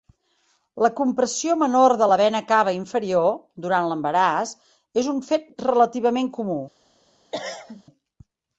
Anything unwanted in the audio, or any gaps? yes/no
yes